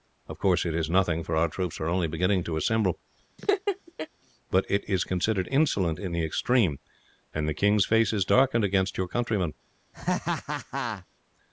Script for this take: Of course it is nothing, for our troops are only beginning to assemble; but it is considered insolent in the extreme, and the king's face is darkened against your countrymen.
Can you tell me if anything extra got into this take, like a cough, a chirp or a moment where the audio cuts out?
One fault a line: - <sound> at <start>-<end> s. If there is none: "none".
- laugh at 3.4-4.1 s
- laugh at 9.9-11.1 s